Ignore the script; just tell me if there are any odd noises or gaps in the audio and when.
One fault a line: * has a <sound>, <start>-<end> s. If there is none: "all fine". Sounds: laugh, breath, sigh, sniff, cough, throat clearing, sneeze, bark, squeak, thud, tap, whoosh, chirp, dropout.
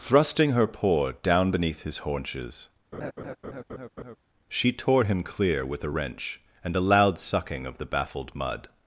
* has a laugh, 2.9-4.2 s